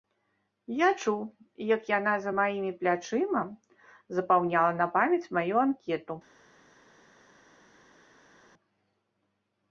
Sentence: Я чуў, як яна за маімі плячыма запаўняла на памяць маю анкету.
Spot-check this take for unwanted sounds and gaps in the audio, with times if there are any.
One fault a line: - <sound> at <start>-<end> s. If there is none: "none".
none